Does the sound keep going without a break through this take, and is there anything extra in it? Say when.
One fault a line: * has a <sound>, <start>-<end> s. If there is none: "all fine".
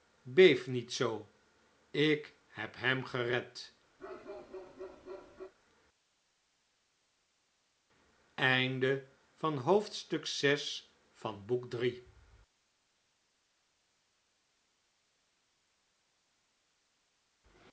* has a bark, 4.0-5.5 s